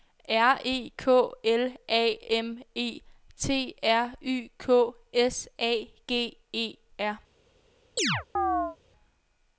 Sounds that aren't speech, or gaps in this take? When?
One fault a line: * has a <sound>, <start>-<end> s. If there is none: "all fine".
* has a chirp, 8.0-8.8 s